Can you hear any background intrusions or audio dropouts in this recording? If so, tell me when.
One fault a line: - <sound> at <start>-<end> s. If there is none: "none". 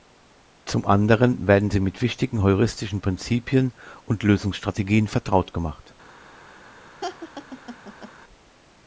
- laugh at 7.0-8.1 s